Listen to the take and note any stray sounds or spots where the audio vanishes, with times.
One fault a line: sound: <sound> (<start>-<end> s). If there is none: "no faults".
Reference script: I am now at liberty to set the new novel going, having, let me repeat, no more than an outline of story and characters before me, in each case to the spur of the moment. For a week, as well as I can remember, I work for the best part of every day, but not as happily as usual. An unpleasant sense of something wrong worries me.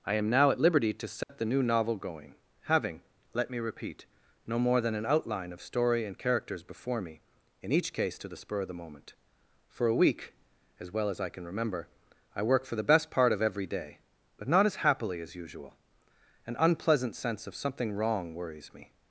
sound: dropout (1.2-1.3 s)